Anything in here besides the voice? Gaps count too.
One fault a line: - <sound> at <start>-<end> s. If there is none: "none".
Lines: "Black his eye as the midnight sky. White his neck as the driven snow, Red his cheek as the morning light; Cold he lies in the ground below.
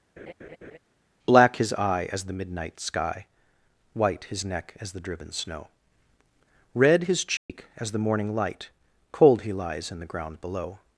- laugh at 0.2-0.8 s
- dropout at 7.4-7.5 s